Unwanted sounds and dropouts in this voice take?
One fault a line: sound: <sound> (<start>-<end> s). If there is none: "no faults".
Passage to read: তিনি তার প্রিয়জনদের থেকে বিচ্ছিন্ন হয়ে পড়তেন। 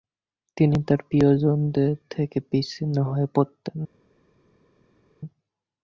no faults